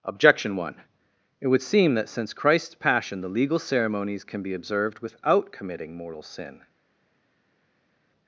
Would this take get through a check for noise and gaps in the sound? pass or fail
pass